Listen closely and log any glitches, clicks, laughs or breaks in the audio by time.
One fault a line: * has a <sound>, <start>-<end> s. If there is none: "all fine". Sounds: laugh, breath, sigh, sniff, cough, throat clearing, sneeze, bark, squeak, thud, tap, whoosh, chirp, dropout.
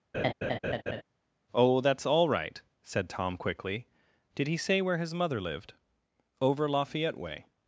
* has a laugh, 0.1-1.0 s